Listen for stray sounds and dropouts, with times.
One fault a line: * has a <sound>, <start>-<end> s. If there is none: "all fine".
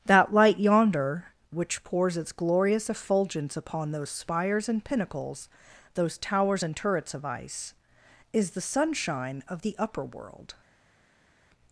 all fine